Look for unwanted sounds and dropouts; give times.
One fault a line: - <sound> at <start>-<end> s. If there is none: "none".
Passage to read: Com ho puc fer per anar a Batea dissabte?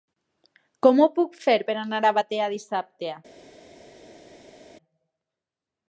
none